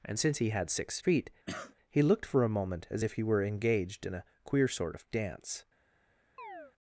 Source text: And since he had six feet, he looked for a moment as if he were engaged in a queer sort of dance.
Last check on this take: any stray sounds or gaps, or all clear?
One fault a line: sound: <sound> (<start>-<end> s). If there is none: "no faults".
sound: cough (1.5-1.8 s)
sound: chirp (6.4-6.7 s)